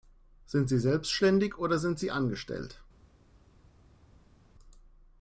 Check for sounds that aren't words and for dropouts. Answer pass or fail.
pass